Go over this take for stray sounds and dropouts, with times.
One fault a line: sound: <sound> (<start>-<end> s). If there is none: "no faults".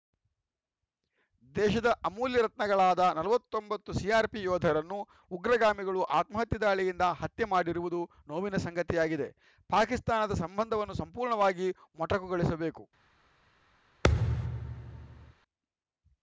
sound: thud (14.0-15.3 s)